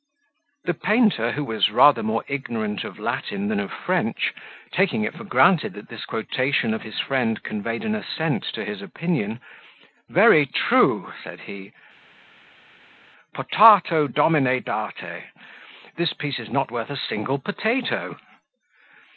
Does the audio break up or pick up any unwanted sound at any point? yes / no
no